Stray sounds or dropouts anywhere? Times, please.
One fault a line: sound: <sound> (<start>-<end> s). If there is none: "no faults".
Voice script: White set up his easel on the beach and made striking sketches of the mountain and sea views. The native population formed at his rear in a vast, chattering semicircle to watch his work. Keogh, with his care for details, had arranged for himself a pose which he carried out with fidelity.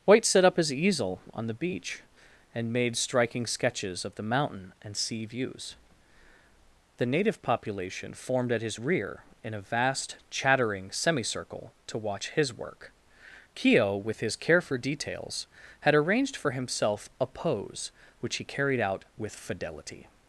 no faults